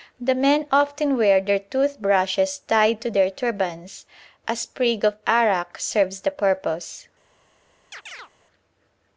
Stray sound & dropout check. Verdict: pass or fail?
fail